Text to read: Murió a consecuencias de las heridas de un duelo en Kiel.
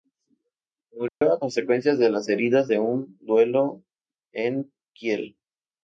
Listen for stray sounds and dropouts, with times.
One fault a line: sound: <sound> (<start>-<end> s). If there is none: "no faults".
sound: dropout (1.1-1.2 s)